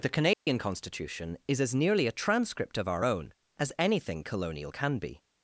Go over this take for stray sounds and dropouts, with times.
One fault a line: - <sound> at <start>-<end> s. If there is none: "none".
- dropout at 0.3-0.5 s